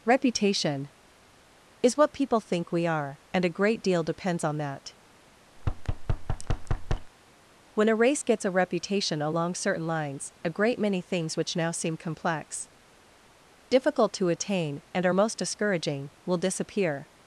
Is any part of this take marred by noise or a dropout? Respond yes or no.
yes